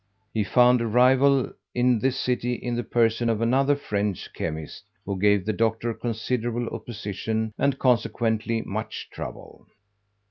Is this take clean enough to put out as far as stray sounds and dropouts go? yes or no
yes